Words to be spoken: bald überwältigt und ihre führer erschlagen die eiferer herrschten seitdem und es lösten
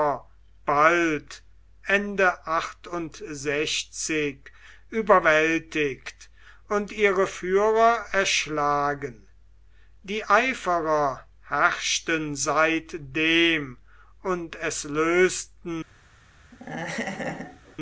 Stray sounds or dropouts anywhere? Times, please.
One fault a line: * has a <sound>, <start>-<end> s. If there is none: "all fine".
* has a laugh, 16.5-17.8 s